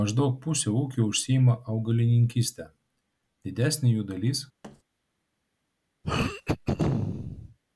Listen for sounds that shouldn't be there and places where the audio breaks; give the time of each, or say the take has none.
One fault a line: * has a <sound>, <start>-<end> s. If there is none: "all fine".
* has a thud, 4.6-4.8 s
* has a throat clearing, 6.0-7.6 s